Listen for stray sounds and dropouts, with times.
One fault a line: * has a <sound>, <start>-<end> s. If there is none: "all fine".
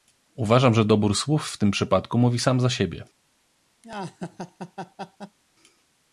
* has a laugh, 3.8-5.4 s